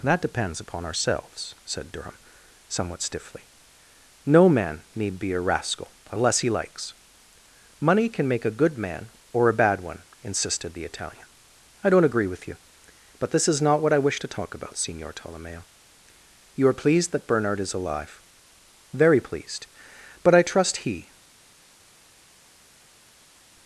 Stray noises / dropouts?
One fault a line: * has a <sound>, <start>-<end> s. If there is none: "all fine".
all fine